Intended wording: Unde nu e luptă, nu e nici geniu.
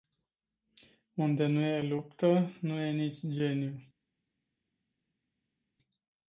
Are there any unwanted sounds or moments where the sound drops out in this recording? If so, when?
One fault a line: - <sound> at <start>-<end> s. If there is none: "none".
none